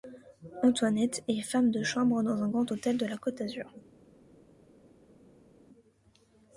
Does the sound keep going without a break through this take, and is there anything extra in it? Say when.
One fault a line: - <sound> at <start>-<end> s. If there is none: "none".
none